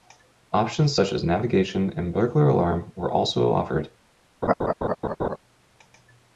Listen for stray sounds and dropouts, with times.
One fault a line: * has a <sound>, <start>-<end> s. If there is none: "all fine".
* has a laugh, 4.4-5.4 s